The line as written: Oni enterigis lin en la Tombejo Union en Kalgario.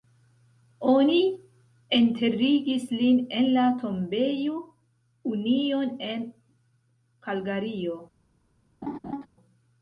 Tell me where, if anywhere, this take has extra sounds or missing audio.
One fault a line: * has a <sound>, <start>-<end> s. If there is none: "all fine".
* has a laugh, 8.8-9.3 s